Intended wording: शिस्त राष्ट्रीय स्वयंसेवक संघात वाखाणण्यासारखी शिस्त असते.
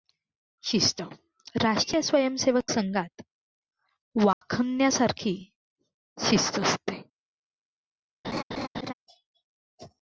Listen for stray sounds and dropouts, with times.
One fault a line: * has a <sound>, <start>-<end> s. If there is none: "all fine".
* has a dropout, 4.3-4.4 s
* has a laugh, 8.2-8.9 s